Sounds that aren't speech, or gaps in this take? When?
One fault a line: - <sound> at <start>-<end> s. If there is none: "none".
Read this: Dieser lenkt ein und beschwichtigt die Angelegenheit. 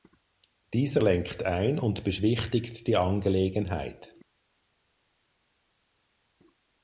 none